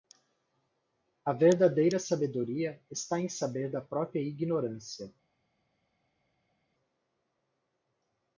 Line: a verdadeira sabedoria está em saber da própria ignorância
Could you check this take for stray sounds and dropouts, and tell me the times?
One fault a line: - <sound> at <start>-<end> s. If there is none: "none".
none